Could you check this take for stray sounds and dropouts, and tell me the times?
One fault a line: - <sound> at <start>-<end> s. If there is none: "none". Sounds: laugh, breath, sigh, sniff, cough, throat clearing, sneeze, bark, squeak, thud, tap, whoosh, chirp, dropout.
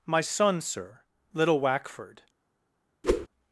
- whoosh at 3.0-3.3 s